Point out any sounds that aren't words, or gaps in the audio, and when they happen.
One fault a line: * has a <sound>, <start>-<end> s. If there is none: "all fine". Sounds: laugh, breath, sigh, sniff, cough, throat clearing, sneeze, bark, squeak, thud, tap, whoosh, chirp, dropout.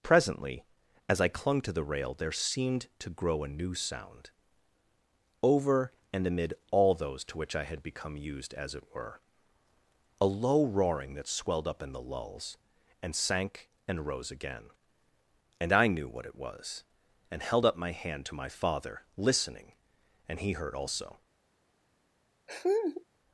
* has a laugh, 22.5-23.0 s